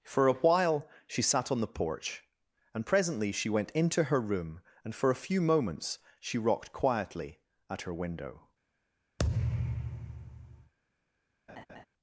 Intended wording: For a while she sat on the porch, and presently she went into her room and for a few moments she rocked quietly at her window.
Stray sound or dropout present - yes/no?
yes